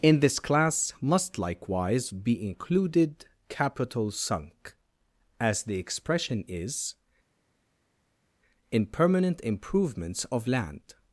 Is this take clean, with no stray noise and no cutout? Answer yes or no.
yes